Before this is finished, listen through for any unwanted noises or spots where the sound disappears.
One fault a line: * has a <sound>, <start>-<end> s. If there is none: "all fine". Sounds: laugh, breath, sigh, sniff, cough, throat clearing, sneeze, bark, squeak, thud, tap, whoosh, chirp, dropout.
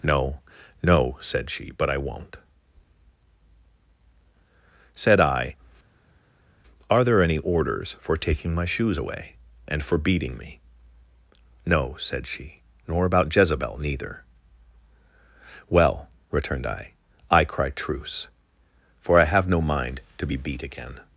all fine